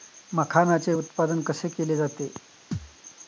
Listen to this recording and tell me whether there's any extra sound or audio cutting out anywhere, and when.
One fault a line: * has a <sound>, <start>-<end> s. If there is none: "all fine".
* has a thud, 2.7-3.0 s